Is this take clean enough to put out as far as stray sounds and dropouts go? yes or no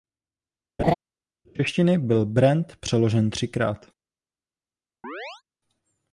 no